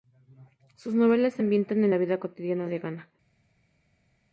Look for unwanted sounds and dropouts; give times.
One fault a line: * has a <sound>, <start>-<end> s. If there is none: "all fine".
all fine